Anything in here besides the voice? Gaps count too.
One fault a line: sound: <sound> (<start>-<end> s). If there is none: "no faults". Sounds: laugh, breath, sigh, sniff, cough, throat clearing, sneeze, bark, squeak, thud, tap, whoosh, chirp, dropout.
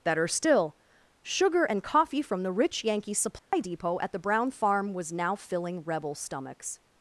sound: dropout (3.4-3.5 s)